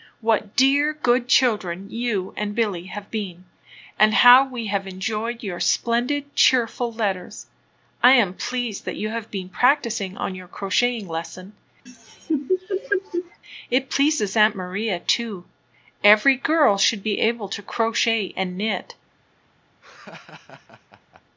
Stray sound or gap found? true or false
true